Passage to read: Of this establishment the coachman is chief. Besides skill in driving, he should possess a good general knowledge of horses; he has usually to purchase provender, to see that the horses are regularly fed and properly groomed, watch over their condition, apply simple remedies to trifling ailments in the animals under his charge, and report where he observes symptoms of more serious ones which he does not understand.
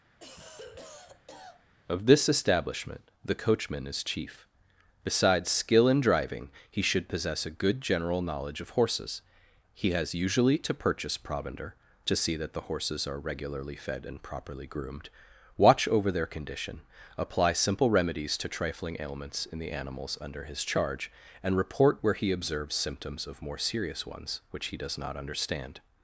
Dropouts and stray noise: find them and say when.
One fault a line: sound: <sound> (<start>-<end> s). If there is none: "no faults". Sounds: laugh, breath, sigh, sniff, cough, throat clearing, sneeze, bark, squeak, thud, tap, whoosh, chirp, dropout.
sound: cough (0.2-1.7 s)